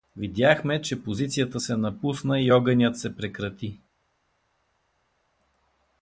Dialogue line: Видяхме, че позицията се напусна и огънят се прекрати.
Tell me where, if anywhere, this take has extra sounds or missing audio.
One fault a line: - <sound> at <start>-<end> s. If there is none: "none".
none